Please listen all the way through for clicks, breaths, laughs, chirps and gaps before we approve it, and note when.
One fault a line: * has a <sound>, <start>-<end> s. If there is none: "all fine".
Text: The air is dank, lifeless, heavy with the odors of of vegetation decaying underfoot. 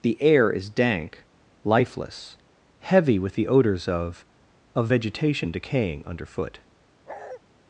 * has a bark, 7.1-7.4 s